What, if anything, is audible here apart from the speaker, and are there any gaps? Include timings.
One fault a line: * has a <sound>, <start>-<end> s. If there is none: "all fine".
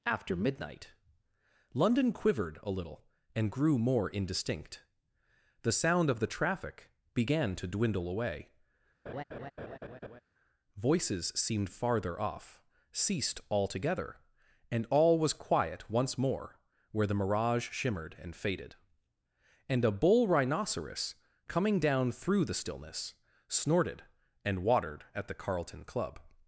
* has a laugh, 9.1-10.2 s